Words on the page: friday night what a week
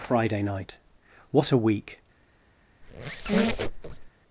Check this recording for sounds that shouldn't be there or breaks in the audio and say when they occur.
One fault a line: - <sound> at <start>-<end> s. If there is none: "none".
- squeak at 2.8-4.1 s